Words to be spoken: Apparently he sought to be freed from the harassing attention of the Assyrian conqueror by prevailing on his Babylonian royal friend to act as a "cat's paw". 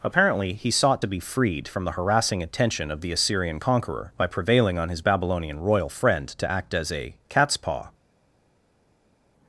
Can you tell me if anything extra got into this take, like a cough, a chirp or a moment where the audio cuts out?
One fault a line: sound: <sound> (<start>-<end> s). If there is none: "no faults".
no faults